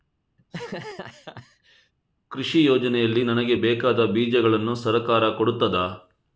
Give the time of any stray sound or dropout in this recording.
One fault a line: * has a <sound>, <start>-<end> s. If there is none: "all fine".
* has a laugh, 0.4-1.9 s